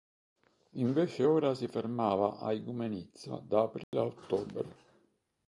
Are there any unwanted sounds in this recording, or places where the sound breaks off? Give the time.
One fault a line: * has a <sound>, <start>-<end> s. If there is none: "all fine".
* has a dropout, 3.8-3.9 s